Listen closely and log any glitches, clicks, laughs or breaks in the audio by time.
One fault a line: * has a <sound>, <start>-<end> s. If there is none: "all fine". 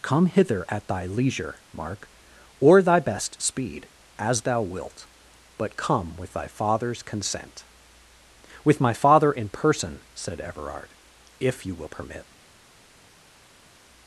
all fine